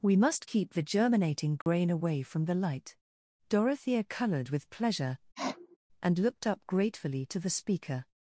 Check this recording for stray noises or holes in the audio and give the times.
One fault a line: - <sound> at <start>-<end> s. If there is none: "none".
- dropout at 1.6-1.7 s
- sniff at 5.3-5.8 s